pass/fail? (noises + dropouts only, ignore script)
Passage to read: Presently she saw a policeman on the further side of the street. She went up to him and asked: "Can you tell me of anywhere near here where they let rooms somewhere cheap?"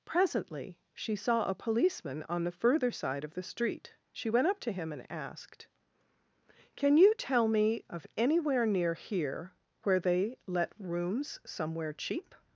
pass